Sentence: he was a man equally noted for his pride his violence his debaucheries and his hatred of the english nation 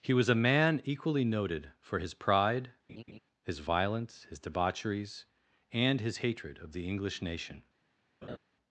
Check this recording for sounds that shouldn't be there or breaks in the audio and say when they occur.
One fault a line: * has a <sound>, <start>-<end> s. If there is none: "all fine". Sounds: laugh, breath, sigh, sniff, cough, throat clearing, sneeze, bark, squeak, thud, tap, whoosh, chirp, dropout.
* has a laugh, 2.9-3.2 s
* has a laugh, 8.2-8.4 s